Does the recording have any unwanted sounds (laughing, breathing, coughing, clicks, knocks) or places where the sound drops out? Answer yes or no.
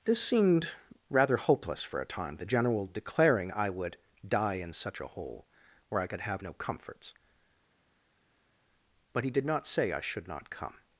no